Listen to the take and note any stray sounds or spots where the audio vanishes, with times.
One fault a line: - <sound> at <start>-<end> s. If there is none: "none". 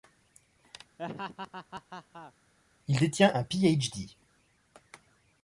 - laugh at 1.0-2.3 s